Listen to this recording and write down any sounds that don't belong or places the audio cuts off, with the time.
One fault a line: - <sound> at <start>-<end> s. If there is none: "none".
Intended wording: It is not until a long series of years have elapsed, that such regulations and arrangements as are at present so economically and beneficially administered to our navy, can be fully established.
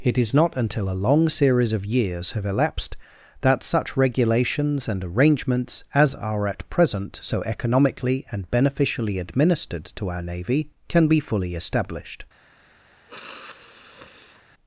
- sniff at 13.1-14.4 s